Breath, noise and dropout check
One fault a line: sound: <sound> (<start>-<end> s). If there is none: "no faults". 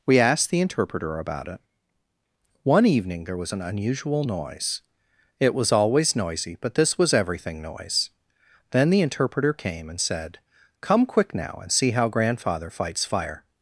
no faults